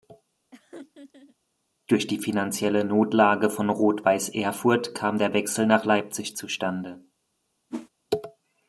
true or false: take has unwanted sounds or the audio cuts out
true